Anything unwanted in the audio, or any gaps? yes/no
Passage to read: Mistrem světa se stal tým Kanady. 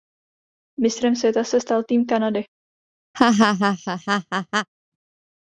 yes